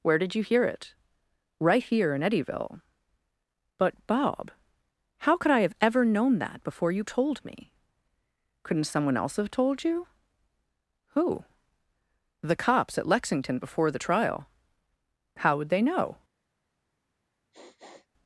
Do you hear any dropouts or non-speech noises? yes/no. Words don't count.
yes